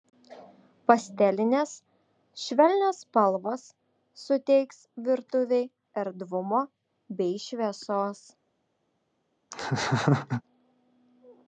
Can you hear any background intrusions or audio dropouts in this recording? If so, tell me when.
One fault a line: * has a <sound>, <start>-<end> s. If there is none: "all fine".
* has a laugh, 9.5-10.4 s